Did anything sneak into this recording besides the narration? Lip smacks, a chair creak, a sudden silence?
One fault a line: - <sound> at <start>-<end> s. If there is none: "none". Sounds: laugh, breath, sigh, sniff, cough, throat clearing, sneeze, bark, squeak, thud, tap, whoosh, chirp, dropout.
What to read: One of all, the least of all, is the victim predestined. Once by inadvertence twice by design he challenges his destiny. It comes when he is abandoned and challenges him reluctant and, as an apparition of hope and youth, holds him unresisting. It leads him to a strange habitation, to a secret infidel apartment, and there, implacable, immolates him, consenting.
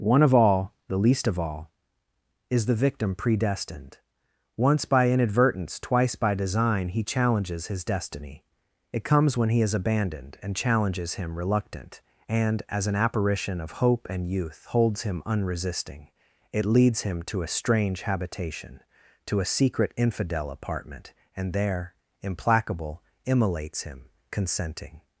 none